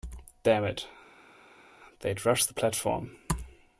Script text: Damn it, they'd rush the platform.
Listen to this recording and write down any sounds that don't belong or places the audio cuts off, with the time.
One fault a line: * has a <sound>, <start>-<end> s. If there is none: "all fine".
all fine